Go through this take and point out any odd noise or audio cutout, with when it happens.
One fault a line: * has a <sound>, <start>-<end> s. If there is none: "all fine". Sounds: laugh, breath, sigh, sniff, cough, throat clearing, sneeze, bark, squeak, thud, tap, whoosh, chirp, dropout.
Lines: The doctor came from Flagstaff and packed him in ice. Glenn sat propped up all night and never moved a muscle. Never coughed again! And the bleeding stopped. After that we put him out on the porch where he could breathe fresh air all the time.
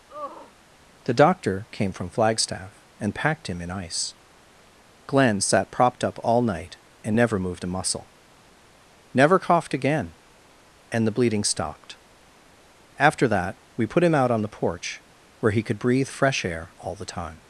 * has a sigh, 0.1-0.5 s